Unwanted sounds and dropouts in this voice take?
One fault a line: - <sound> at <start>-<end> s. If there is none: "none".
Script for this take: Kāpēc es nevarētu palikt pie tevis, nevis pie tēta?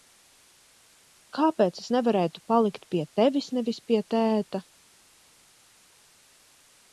none